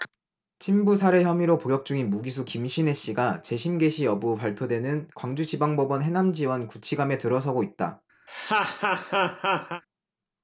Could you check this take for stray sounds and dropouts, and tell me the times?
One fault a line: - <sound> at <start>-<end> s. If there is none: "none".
- laugh at 8.3-9.8 s